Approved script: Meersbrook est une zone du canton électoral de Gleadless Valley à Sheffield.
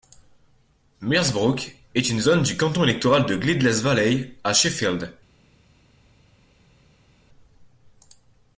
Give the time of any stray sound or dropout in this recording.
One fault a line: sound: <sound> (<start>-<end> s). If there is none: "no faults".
no faults